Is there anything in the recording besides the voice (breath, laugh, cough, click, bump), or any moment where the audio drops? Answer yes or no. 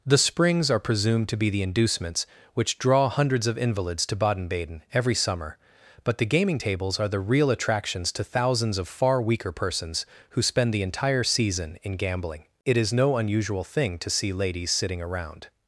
no